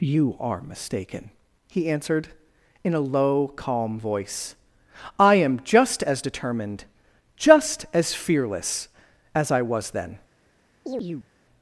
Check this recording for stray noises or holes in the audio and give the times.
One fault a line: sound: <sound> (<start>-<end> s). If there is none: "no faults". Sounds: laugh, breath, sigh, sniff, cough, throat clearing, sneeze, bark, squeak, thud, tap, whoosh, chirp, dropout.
sound: chirp (10.9-11.3 s)